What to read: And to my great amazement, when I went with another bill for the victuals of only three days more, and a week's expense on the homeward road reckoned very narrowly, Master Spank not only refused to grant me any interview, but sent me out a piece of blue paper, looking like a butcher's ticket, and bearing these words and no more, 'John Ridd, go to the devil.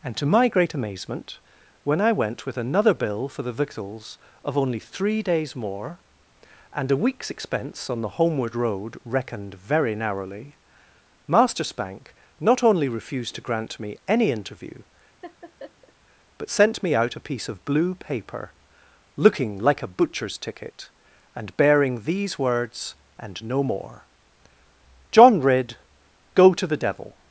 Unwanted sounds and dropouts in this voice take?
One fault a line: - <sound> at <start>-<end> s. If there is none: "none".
- laugh at 15.2-15.9 s